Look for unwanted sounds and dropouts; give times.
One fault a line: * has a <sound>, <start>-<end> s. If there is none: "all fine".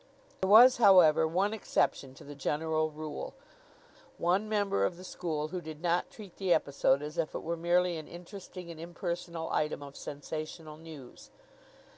all fine